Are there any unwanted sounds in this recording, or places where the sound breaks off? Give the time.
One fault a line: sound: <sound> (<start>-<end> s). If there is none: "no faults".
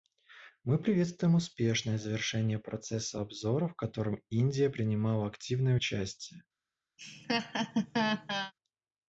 sound: laugh (7.0-8.5 s)